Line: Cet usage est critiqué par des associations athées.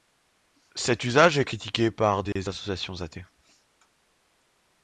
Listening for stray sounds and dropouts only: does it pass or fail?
fail